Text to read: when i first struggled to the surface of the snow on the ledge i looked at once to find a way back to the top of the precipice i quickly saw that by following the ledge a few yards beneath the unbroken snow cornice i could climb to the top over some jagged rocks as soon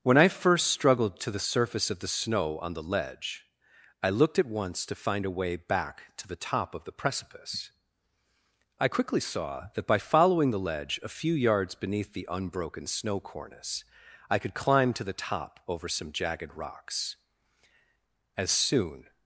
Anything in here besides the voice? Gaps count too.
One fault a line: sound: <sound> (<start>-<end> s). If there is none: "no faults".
no faults